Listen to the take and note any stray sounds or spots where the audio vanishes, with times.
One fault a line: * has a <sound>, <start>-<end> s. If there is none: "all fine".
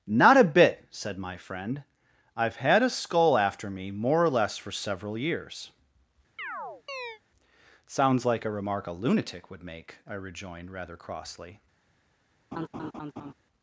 * has a chirp, 6.4-7.2 s
* has a laugh, 12.5-13.3 s